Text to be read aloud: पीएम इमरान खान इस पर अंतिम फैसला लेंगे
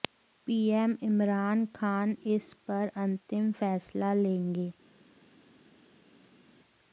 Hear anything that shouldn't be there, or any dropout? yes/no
no